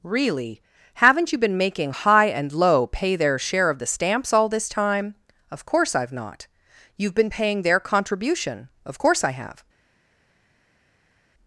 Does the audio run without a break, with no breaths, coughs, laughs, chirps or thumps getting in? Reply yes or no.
yes